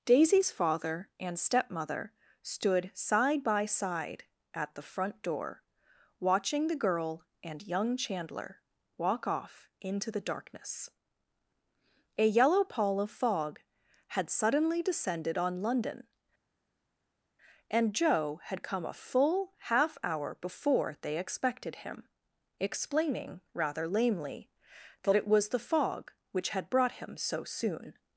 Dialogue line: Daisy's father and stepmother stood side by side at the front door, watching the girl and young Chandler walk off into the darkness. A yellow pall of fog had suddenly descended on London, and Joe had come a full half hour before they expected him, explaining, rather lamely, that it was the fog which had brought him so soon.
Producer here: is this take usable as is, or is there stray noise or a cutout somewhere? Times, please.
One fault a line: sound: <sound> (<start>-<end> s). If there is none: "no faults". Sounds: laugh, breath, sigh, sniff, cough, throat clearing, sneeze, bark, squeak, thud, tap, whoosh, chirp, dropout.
no faults